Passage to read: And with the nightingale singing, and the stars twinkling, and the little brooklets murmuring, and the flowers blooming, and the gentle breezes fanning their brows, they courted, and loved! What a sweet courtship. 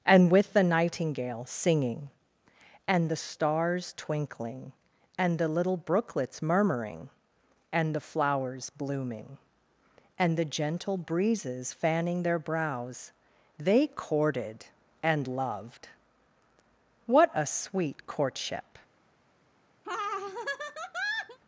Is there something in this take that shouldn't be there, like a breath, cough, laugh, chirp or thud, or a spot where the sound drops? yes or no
yes